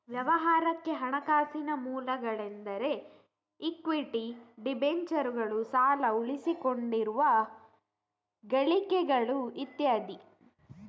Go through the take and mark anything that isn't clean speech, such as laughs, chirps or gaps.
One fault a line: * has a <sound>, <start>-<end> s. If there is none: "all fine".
all fine